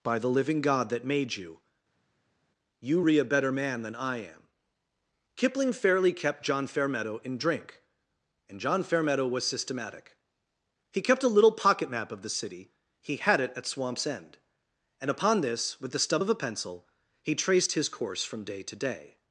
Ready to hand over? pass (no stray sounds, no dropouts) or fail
pass